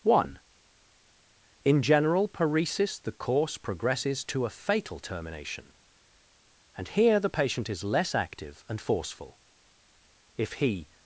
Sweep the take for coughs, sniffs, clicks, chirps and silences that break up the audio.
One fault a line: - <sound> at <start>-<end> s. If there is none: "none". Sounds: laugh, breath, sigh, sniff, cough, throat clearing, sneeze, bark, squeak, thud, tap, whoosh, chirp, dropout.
none